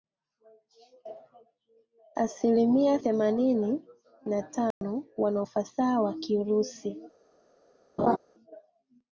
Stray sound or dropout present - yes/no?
yes